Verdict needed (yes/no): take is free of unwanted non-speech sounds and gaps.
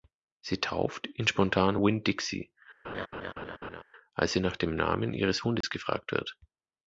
no